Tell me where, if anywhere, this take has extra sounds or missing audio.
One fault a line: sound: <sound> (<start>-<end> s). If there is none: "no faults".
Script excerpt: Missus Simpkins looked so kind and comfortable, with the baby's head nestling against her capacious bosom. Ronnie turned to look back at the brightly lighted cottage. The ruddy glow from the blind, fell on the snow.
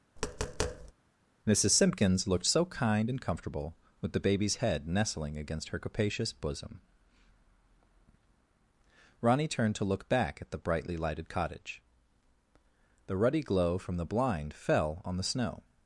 sound: tap (0.2-0.9 s)